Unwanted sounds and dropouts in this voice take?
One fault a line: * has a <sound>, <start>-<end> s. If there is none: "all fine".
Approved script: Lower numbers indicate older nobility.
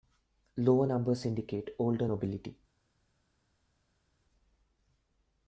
all fine